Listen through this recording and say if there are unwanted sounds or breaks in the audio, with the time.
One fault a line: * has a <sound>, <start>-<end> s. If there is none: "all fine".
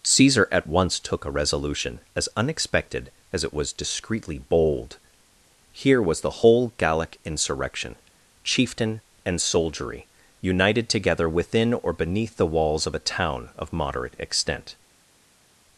all fine